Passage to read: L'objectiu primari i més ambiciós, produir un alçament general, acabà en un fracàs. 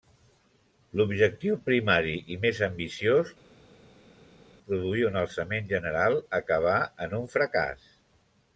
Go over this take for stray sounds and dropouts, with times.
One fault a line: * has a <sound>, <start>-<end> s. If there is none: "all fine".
all fine